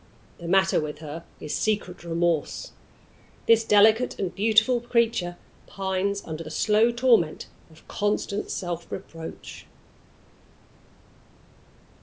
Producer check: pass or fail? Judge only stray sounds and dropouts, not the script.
pass